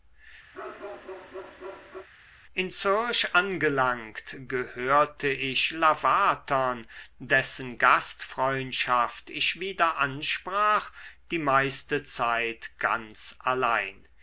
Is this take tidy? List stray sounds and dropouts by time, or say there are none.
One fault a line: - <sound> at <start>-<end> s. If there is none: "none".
- bark at 0.5-2.1 s